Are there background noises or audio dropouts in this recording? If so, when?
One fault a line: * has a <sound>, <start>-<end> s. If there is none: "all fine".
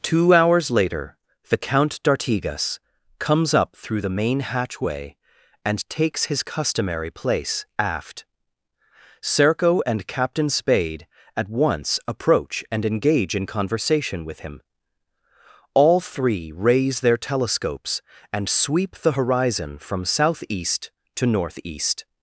all fine